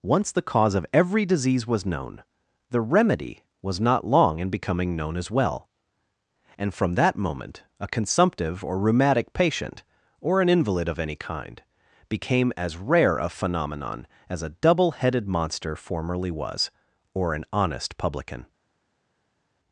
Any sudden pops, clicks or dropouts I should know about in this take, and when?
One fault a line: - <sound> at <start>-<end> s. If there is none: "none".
none